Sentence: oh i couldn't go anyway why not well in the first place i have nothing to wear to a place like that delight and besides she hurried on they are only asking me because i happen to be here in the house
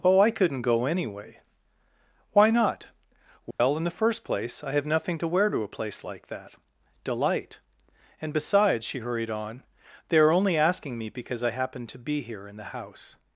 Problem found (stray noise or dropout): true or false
true